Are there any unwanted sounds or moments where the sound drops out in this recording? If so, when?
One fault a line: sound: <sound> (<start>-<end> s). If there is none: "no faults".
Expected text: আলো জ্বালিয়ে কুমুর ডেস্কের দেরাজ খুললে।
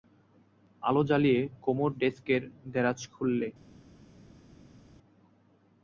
no faults